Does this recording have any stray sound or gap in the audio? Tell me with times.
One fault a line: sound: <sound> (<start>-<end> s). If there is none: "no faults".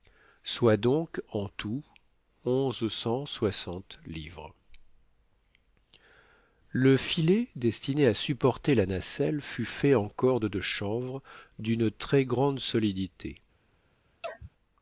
sound: sneeze (14.2-14.5 s)